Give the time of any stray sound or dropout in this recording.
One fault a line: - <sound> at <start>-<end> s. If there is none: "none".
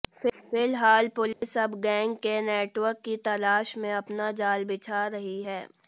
- dropout at 1.3-1.4 s